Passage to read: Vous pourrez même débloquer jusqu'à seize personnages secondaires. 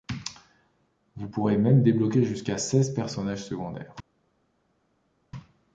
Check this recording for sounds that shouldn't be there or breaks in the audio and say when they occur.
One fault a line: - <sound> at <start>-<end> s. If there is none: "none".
none